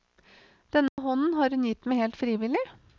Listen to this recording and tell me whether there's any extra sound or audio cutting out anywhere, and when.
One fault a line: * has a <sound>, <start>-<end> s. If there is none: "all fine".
* has a dropout, 0.9-1.0 s